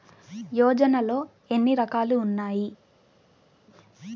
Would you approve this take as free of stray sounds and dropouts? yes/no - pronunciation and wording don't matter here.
yes